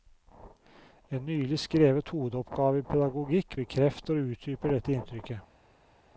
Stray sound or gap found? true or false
false